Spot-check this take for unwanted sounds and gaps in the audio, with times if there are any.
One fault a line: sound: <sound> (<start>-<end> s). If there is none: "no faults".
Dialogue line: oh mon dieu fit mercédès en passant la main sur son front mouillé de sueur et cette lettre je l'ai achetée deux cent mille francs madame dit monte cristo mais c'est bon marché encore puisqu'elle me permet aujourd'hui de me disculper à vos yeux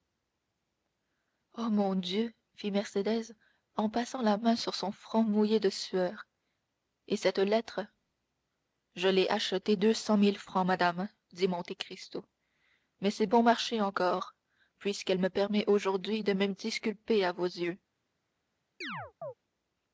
sound: chirp (18.8-19.3 s)